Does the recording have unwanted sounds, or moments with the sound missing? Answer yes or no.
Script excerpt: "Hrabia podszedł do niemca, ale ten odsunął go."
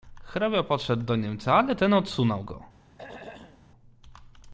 yes